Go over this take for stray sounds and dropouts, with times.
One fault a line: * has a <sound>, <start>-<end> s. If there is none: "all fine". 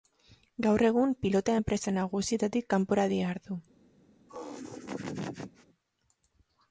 * has a laugh, 4.3-5.7 s